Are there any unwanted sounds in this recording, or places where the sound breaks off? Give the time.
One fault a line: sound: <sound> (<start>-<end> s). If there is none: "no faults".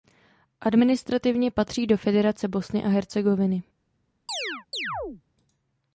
sound: chirp (4.3-5.2 s)